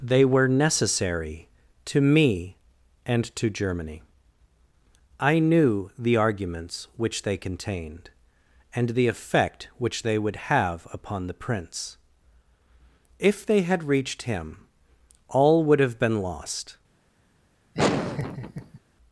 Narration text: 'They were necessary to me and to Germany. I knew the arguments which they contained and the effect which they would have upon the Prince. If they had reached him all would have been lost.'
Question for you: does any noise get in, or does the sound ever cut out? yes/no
yes